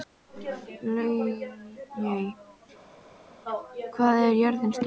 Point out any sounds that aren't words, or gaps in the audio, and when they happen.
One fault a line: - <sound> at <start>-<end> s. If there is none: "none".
none